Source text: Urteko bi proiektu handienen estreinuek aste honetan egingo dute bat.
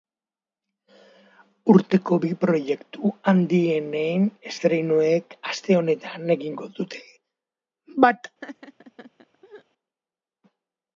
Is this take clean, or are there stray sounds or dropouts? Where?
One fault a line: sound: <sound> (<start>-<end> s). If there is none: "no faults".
sound: laugh (8.4-9.6 s)